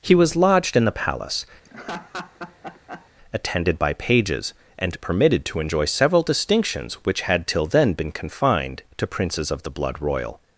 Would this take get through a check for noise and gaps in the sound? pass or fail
fail